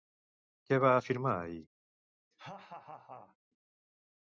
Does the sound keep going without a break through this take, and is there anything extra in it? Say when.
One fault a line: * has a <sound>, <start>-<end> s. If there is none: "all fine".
* has a laugh, 2.3-3.4 s